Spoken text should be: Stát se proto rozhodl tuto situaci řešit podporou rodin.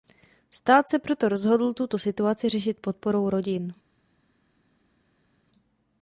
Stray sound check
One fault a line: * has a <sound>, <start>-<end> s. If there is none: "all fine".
all fine